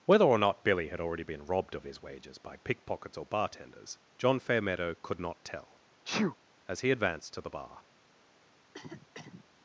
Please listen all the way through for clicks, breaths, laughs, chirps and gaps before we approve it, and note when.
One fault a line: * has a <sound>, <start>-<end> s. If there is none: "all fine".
* has a sneeze, 6.0-6.3 s
* has a cough, 8.6-9.4 s